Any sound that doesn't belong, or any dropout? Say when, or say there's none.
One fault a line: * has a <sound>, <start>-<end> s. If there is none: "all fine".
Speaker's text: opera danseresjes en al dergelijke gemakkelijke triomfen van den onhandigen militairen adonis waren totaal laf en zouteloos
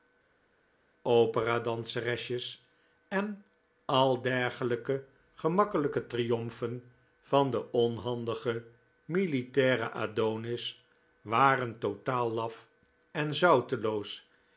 all fine